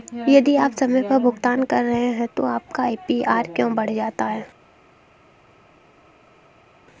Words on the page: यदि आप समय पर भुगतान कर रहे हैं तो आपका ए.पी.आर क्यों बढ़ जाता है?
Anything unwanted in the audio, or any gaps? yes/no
no